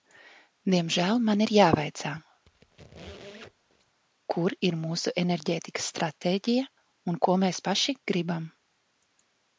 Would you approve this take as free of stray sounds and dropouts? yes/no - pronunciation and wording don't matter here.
no